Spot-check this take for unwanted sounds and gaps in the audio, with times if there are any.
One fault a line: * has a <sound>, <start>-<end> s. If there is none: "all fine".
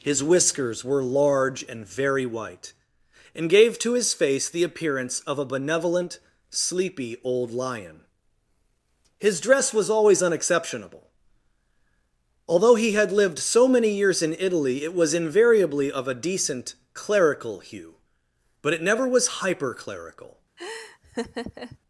* has a laugh, 20.6-21.8 s